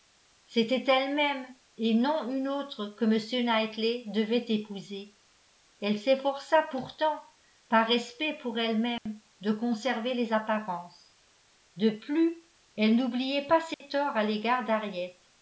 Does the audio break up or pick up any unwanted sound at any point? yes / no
yes